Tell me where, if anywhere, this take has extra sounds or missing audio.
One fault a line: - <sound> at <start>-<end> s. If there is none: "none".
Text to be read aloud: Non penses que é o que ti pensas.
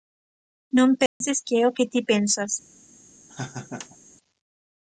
- dropout at 1.1-1.2 s
- laugh at 3.3-4.0 s